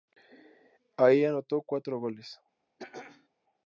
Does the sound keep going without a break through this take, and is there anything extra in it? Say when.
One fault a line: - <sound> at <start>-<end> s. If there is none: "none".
- throat clearing at 2.8-3.3 s